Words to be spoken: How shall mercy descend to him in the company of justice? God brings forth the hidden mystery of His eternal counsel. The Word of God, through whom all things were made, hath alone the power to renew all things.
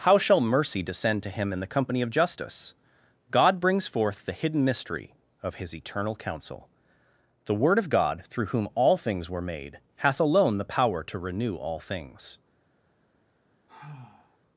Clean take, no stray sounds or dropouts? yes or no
no